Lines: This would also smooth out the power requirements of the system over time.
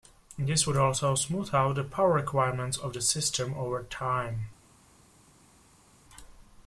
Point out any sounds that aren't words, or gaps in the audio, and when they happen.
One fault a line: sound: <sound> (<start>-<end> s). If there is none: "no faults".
no faults